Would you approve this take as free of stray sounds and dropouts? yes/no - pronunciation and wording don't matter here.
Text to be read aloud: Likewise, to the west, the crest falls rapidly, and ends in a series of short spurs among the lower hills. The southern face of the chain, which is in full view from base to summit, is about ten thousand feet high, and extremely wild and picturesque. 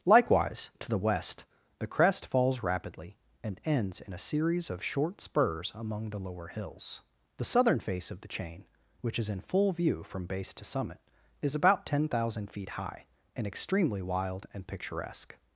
yes